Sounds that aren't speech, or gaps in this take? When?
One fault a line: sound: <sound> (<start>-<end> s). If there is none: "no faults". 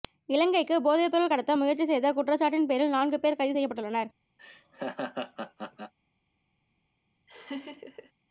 sound: laugh (4.4-5.9 s)
sound: laugh (7.3-8.1 s)